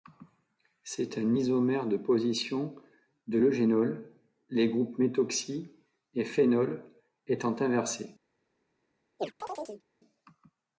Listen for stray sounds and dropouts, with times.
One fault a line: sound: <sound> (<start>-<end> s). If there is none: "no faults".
sound: chirp (9.2-9.8 s)